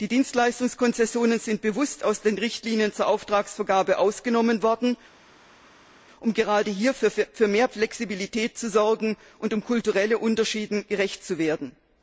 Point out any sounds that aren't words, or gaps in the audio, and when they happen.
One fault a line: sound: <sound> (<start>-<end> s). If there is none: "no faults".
no faults